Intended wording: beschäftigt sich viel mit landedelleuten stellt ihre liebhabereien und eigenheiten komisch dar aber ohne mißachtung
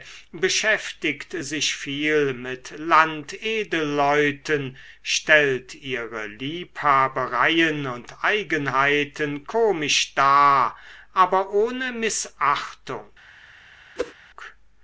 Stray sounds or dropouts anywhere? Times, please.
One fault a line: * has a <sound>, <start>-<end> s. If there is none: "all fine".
* has a whoosh, 14.0-14.1 s